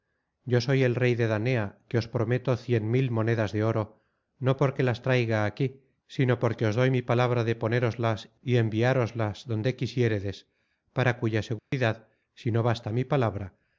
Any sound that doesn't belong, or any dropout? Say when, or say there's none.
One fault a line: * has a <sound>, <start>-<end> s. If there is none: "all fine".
* has a dropout, 11.6-11.7 s